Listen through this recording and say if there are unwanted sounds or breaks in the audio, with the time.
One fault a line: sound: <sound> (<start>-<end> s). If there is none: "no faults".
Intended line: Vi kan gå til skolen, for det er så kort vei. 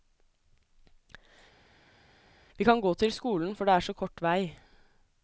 no faults